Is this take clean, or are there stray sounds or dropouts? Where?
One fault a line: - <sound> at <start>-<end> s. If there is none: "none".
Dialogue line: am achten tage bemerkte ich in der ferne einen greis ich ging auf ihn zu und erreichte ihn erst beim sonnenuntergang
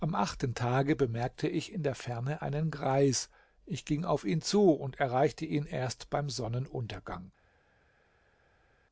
none